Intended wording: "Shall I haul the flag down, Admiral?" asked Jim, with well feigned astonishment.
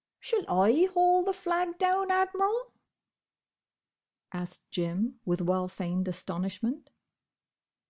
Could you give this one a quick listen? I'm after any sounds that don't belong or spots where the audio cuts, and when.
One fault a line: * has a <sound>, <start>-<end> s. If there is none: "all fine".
all fine